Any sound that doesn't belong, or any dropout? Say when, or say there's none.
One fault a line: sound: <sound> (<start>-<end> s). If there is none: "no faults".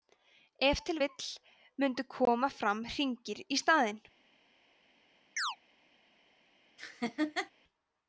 sound: chirp (5.4-5.6 s)
sound: laugh (6.8-7.5 s)